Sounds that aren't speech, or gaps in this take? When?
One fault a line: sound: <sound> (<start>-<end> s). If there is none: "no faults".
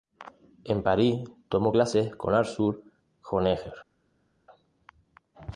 no faults